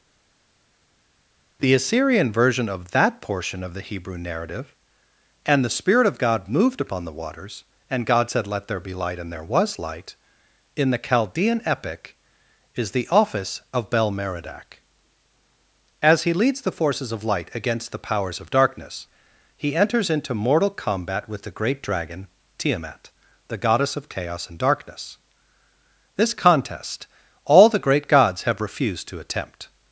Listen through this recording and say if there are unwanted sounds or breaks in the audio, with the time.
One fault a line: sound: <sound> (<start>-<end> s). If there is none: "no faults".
no faults